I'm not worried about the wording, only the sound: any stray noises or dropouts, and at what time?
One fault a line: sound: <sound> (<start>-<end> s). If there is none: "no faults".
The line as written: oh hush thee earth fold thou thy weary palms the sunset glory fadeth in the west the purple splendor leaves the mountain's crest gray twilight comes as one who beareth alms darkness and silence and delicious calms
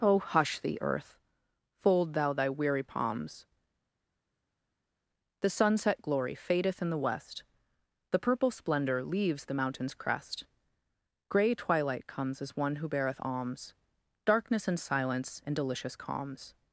no faults